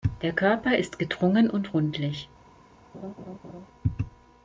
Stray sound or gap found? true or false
true